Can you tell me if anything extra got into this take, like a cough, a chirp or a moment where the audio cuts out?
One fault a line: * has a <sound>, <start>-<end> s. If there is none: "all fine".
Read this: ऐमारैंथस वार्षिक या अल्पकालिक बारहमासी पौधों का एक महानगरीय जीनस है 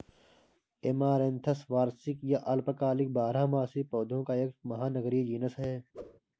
* has a whoosh, 5.9-6.2 s